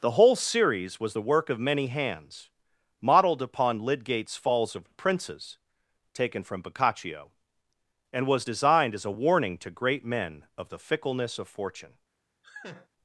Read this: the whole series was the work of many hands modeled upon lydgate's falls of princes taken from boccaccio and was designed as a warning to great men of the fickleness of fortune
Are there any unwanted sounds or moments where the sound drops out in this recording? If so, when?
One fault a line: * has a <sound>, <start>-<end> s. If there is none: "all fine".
* has a laugh, 12.4-12.9 s